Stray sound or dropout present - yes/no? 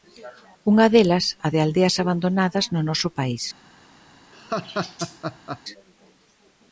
yes